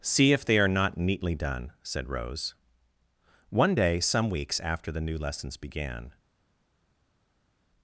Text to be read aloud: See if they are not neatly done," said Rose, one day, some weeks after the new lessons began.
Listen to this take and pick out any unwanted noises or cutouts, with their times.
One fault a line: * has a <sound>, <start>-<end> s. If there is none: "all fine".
all fine